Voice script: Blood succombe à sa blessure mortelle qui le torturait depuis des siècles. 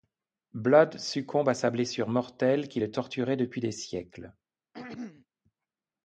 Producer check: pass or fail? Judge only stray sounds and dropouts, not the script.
fail